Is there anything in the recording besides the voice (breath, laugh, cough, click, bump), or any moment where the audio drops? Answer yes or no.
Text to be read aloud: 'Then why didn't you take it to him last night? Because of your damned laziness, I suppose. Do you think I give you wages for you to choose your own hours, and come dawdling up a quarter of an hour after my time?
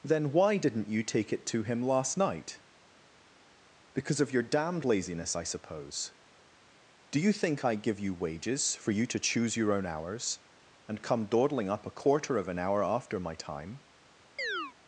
yes